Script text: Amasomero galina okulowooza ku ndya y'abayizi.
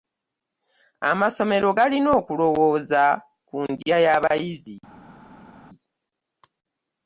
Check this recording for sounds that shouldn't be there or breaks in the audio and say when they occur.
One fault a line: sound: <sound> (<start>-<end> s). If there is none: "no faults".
no faults